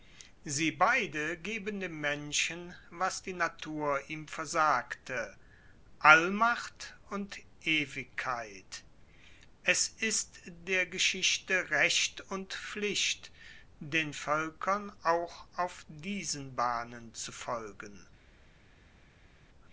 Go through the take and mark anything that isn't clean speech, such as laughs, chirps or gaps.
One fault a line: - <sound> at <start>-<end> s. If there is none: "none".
none